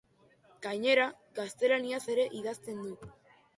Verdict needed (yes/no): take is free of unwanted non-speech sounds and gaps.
yes